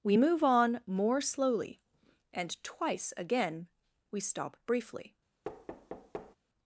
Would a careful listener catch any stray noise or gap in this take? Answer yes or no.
yes